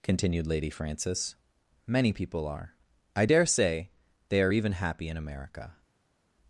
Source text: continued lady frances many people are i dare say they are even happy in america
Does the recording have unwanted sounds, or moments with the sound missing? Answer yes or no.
no